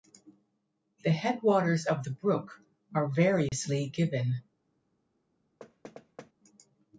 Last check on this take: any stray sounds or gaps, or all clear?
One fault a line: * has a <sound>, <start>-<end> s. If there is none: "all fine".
* has a dropout, 3.5-3.5 s
* has a thud, 5.6-6.3 s